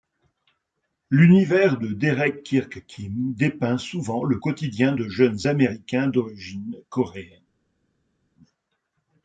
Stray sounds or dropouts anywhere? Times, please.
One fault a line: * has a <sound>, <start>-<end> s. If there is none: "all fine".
all fine